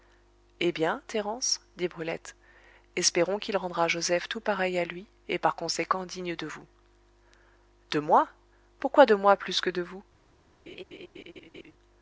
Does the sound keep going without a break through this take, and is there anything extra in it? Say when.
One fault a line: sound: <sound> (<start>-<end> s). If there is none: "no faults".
sound: laugh (10.7-11.7 s)